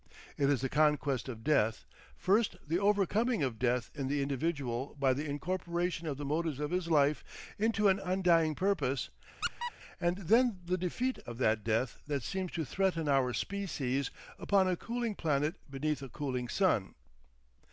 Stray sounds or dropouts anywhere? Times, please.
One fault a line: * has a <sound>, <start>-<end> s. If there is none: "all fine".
* has a squeak, 9.4-9.7 s